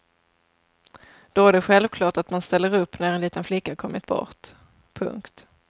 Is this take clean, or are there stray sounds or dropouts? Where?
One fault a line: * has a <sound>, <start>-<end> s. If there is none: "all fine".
all fine